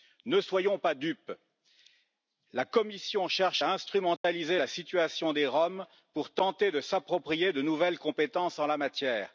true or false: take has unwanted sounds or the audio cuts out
true